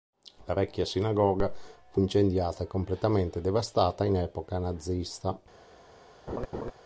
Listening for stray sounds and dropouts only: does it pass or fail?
fail